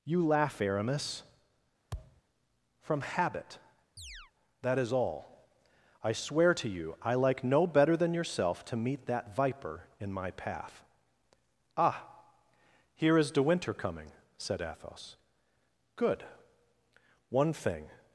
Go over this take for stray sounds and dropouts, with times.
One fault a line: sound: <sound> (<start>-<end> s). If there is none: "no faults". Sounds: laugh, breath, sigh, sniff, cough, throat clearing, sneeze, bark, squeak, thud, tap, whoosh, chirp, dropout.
sound: thud (1.9-2.2 s)
sound: chirp (4.0-4.3 s)